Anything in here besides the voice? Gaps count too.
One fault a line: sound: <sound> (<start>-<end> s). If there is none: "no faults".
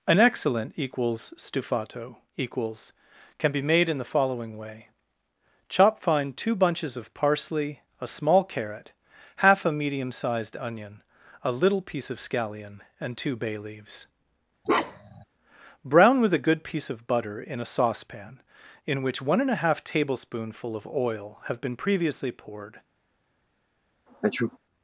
sound: bark (14.6-15.2 s)
sound: sneeze (24.1-24.6 s)